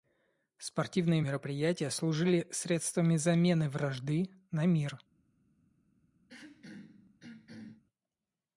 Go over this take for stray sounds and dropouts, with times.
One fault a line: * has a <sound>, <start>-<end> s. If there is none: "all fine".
* has a throat clearing, 6.3-7.8 s